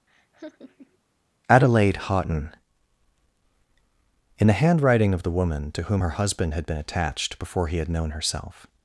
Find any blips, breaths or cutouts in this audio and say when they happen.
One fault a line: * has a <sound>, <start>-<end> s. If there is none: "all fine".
* has a laugh, 0.1-1.0 s